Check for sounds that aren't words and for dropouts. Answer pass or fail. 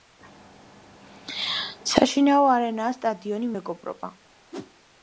fail